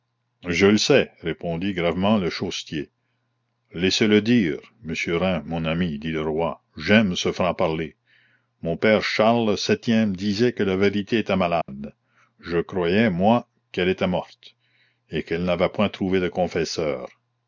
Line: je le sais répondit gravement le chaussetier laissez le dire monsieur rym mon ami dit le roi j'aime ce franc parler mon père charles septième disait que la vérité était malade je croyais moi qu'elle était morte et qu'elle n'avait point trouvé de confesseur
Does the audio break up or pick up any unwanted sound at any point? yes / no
yes